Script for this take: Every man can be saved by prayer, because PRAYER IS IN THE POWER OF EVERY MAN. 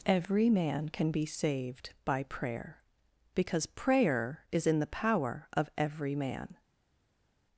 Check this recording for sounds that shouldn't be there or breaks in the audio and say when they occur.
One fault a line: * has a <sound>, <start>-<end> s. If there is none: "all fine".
all fine